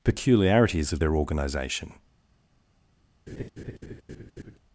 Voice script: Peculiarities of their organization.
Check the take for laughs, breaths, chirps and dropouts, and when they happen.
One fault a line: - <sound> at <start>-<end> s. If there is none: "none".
- laugh at 3.3-4.6 s